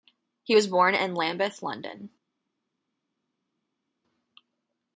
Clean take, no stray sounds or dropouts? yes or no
yes